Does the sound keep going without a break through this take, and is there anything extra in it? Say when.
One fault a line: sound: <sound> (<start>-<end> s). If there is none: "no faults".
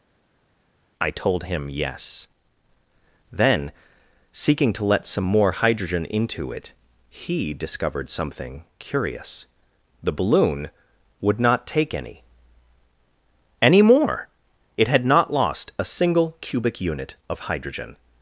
no faults